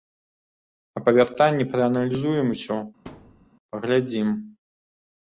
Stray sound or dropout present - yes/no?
yes